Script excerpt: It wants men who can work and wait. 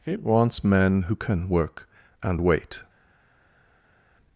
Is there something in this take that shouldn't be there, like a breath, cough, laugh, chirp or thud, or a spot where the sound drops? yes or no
no